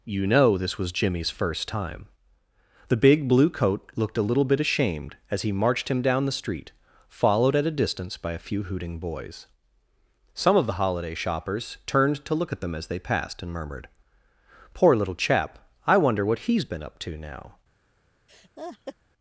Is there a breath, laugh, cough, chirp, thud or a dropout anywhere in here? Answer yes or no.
yes